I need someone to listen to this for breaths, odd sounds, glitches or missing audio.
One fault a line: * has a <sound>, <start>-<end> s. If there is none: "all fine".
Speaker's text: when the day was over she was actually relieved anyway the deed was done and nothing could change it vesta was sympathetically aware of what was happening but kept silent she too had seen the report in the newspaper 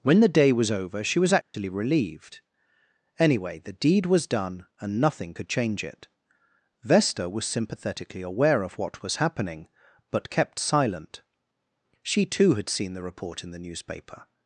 * has a dropout, 1.4-1.5 s